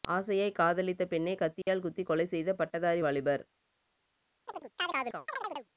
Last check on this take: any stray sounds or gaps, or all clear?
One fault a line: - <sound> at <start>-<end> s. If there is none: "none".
- dropout at 1.6-1.7 s
- chirp at 4.5-5.7 s